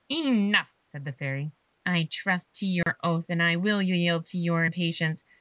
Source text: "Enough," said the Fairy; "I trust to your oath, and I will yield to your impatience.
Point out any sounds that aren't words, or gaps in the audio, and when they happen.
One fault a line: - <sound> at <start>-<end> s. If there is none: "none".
- dropout at 2.8-2.9 s